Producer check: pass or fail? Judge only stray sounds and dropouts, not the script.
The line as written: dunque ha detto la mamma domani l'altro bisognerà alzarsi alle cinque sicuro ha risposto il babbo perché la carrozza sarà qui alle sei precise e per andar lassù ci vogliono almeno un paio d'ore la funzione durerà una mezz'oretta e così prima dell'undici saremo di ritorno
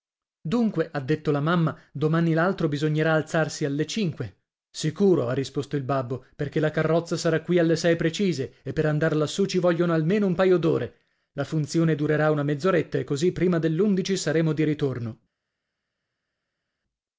pass